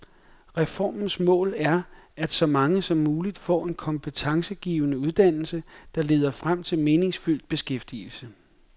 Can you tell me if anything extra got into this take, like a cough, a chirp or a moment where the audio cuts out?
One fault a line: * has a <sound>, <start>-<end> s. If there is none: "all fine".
all fine